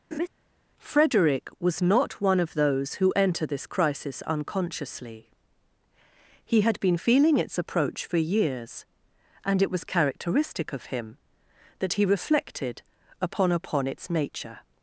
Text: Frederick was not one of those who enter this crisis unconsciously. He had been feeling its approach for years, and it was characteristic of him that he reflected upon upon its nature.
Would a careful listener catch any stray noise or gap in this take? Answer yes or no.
yes